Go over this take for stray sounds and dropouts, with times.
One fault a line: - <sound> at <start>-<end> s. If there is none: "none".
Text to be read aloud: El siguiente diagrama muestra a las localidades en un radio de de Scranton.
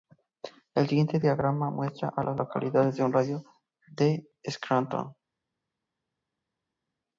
none